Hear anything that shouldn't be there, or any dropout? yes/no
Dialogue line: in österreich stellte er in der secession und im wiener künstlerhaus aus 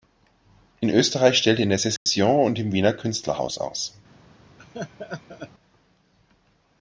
yes